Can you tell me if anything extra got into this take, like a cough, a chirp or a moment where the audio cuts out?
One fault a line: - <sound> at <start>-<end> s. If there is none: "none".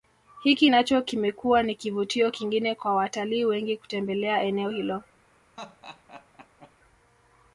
- laugh at 5.6-6.7 s